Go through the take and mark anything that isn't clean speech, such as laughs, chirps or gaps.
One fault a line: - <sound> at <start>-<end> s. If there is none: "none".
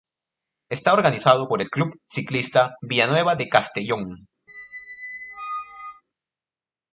- squeak at 4.5-6.0 s